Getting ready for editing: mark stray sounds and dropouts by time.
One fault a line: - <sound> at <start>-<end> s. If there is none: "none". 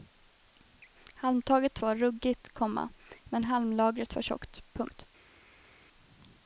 none